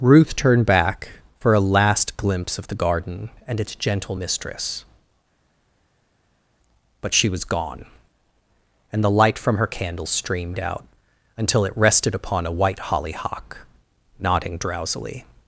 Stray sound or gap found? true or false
false